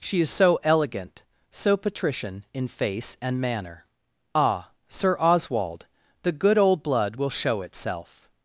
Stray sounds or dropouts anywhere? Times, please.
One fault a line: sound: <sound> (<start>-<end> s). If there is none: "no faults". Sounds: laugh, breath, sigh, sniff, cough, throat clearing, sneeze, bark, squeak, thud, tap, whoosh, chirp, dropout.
no faults